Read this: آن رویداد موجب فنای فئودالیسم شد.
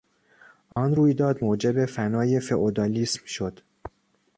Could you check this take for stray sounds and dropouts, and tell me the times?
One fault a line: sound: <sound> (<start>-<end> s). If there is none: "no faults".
sound: dropout (0.7-0.8 s)